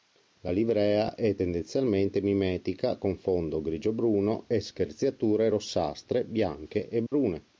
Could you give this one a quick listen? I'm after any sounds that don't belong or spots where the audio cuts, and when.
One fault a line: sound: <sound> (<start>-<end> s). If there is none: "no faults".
sound: dropout (7.1-7.1 s)